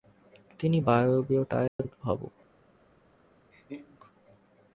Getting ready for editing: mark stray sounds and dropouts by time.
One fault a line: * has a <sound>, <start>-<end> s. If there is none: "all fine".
* has a dropout, 1.7-1.8 s
* has a laugh, 3.5-4.0 s